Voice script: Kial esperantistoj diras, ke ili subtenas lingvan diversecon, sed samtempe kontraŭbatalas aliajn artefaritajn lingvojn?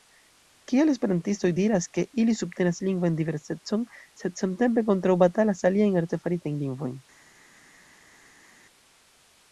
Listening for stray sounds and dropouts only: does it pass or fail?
pass